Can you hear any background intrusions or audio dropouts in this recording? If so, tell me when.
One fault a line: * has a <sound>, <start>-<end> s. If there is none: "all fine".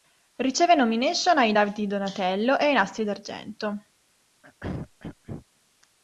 * has a throat clearing, 4.4-5.5 s